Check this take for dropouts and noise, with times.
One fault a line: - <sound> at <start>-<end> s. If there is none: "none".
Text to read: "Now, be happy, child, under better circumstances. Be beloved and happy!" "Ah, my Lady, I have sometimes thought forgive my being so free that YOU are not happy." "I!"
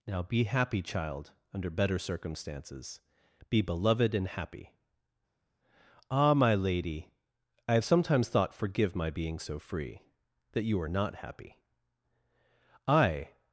none